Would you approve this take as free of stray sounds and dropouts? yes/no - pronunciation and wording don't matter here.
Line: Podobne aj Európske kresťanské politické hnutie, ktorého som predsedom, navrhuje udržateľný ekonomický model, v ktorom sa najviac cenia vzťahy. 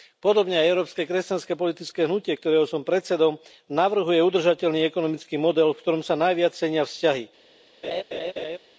no